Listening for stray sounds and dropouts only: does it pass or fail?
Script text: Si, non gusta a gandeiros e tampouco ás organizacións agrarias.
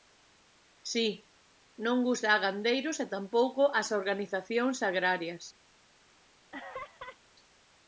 fail